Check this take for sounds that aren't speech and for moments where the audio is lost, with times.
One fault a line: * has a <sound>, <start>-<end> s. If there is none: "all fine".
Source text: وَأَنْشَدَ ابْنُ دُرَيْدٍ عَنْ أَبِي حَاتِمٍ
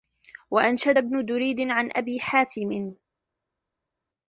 all fine